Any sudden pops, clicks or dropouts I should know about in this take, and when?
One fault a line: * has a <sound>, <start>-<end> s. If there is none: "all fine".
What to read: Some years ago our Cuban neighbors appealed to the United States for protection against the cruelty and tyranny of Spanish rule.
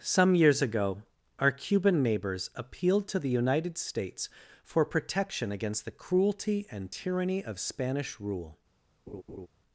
* has a laugh, 9.1-9.5 s